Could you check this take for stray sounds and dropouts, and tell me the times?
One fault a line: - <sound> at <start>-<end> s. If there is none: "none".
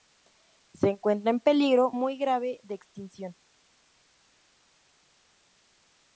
none